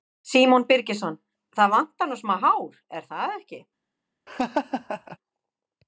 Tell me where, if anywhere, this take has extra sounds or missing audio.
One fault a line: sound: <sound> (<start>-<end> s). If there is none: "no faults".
sound: laugh (4.3-5.2 s)